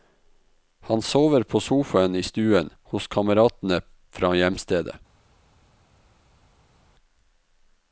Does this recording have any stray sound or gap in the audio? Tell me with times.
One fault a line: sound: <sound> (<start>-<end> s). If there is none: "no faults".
no faults